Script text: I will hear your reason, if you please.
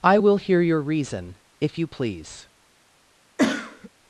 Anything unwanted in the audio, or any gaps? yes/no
yes